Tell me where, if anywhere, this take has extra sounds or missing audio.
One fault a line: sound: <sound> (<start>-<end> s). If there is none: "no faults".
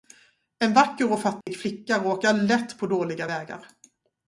sound: dropout (1.4-1.5 s)